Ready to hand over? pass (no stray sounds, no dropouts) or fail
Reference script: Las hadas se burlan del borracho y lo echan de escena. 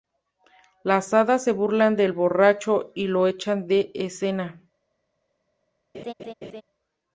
fail